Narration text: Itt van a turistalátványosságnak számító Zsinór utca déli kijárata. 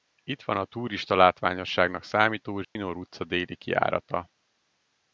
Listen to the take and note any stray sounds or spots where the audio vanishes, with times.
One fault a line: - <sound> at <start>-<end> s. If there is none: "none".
- dropout at 2.6-2.8 s